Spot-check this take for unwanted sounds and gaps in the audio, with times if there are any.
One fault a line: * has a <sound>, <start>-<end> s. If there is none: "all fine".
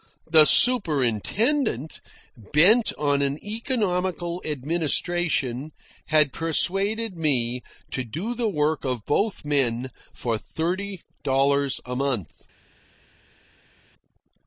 all fine